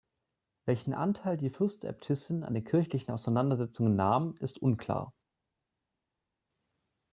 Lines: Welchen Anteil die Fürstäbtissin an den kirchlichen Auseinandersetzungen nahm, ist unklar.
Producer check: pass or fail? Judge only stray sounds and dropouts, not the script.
pass